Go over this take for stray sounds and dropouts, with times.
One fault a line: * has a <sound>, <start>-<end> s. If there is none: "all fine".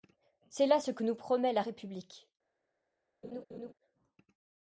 * has a laugh, 3.2-3.7 s